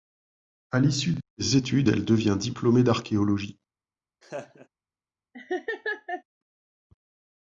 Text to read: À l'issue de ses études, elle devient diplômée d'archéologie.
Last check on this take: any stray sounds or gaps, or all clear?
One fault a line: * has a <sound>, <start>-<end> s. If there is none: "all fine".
* has a laugh, 4.2-4.7 s
* has a laugh, 5.3-6.2 s